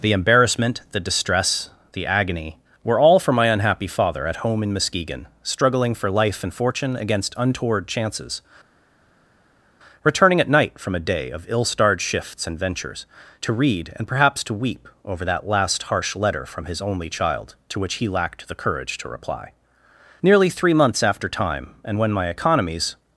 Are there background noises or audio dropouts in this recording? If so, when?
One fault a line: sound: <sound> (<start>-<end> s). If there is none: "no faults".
no faults